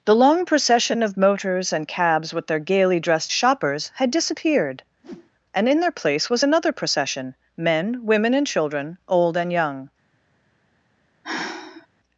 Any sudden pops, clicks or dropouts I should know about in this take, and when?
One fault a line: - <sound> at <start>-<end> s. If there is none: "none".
- whoosh at 5.0-5.3 s
- sigh at 11.2-11.9 s